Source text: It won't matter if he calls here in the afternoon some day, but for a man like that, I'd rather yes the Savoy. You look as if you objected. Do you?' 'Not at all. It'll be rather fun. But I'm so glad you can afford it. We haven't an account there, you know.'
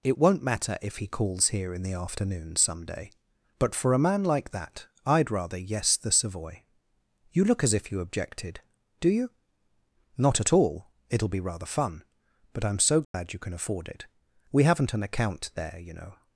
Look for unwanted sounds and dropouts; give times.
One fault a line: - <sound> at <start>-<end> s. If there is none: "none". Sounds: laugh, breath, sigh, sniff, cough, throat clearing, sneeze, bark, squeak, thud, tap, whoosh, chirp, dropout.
- dropout at 13.0-13.1 s